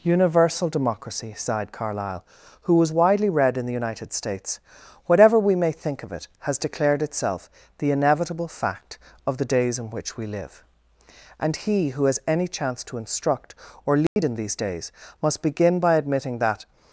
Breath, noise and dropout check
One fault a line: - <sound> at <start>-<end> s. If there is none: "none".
- dropout at 14.1-14.2 s